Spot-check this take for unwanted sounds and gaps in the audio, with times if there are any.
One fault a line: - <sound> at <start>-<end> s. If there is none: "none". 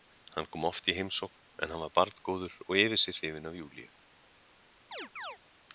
- chirp at 4.9-5.4 s